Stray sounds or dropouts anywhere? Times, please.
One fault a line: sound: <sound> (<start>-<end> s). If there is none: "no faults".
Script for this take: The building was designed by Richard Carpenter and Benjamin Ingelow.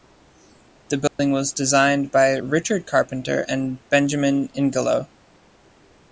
sound: dropout (1.1-1.2 s)